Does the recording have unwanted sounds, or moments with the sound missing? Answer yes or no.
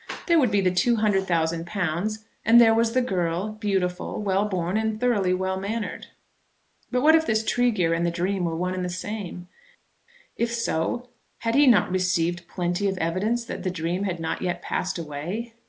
no